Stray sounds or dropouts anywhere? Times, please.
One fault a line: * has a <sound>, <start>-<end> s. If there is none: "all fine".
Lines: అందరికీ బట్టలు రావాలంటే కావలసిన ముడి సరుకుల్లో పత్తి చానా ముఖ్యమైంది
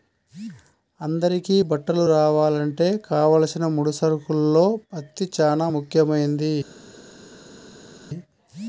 all fine